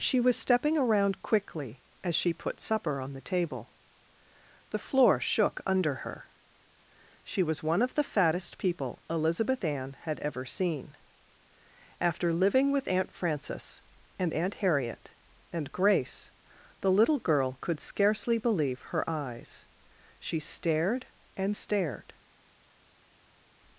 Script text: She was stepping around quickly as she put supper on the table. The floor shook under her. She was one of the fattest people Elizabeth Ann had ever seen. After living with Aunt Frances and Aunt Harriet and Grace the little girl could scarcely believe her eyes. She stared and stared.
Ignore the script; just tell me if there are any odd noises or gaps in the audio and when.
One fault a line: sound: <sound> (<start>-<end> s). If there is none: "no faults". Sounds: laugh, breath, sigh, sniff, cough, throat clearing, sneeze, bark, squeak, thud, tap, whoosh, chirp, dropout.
no faults